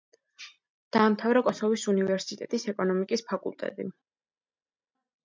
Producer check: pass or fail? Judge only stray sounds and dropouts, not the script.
pass